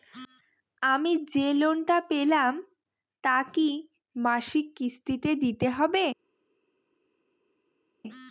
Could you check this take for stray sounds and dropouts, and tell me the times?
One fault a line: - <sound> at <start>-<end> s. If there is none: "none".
none